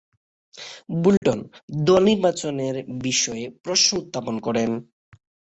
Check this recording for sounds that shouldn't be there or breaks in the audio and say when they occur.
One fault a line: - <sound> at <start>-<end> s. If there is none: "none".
- dropout at 1.2-1.2 s